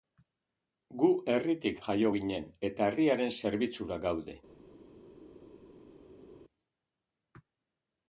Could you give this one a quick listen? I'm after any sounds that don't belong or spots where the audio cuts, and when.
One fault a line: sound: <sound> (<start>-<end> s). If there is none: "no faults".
no faults